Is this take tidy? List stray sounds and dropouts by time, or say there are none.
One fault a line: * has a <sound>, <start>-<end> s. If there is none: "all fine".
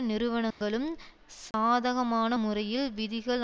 * has a dropout, 0.5-0.6 s
* has a dropout, 1.5-1.5 s